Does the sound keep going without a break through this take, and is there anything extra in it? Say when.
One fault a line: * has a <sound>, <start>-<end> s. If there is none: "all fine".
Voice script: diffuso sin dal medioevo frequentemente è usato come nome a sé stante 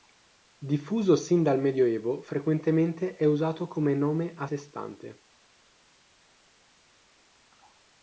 all fine